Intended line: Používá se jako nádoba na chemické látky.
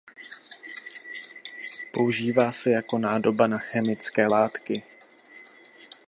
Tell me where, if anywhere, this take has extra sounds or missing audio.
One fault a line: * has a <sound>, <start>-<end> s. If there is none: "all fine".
all fine